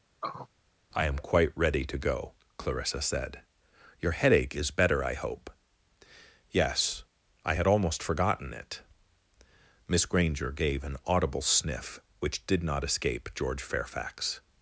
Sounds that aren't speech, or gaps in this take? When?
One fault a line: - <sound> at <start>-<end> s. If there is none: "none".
- throat clearing at 0.2-0.5 s